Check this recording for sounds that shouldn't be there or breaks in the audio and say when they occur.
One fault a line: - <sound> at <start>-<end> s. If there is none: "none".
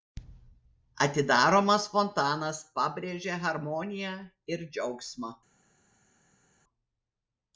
none